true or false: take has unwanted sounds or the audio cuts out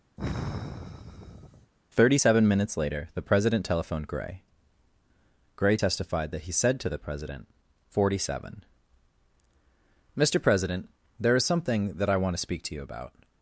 true